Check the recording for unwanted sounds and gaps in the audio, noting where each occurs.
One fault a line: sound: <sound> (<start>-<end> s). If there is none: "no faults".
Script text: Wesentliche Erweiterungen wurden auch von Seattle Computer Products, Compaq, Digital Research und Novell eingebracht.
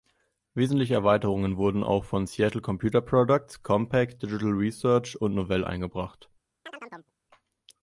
sound: chirp (6.7-7.1 s)